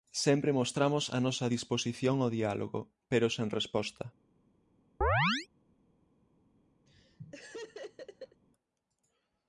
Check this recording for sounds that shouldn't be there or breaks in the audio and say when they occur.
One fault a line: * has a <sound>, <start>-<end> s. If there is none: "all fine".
* has a chirp, 5.0-5.5 s
* has a laugh, 6.9-8.4 s